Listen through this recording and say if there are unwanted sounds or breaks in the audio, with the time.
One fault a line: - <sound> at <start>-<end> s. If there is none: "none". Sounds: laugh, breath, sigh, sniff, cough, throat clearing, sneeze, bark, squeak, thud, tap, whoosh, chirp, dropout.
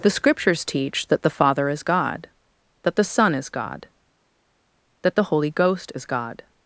none